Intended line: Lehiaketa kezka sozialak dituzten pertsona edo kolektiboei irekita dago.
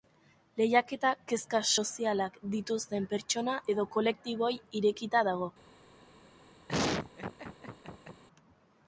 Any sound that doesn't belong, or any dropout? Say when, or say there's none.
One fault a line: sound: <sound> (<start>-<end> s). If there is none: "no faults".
sound: laugh (6.7-8.2 s)